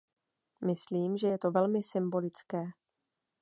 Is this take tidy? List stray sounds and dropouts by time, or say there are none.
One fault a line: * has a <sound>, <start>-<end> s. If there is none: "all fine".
all fine